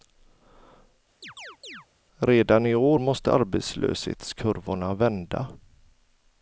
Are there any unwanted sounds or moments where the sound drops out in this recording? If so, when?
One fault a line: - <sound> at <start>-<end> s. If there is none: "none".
- chirp at 1.2-1.9 s